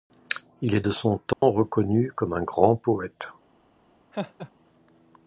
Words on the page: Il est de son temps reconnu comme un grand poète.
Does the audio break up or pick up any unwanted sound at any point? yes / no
yes